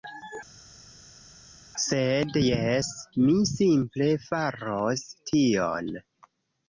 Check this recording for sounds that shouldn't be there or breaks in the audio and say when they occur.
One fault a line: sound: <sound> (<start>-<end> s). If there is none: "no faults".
no faults